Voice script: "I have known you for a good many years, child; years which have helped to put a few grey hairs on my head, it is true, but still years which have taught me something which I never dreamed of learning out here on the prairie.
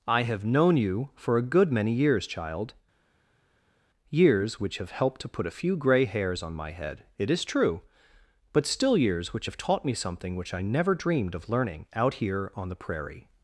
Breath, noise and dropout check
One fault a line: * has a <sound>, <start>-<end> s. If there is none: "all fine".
all fine